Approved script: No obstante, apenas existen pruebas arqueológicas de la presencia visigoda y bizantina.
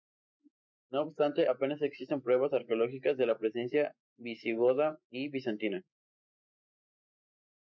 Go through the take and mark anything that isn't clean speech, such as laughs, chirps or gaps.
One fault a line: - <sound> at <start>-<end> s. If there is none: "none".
none